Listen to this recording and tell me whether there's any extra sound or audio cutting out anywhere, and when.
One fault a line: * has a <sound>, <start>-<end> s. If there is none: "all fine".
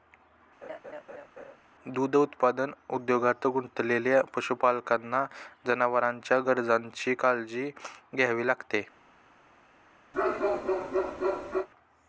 * has a laugh, 0.6-1.6 s
* has a bark, 10.1-11.7 s